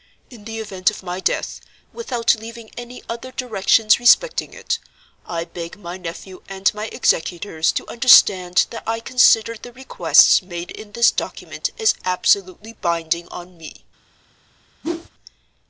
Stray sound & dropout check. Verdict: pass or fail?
fail